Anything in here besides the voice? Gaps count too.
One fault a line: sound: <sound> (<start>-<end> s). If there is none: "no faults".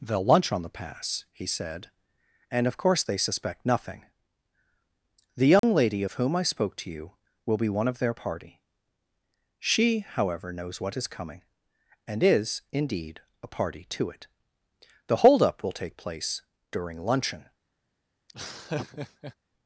sound: dropout (5.6-5.6 s)
sound: laugh (18.3-19.4 s)